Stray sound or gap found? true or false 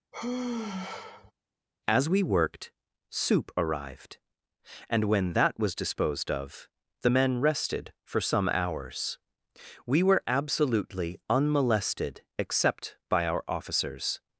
true